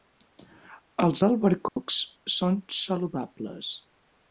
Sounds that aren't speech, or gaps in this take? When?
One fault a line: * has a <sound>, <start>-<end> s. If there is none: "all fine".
* has a dropout, 1.7-1.8 s